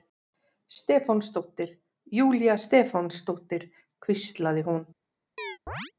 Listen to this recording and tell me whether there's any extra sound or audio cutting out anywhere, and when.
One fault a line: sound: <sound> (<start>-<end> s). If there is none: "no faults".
sound: chirp (5.4-5.9 s)